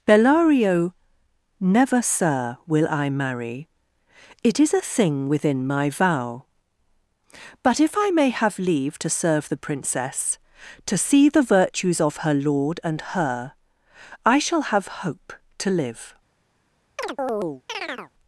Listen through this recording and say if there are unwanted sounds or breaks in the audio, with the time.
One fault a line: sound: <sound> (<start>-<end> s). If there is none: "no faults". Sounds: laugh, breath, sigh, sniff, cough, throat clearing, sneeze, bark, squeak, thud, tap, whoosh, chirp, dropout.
sound: chirp (17.0-18.1 s)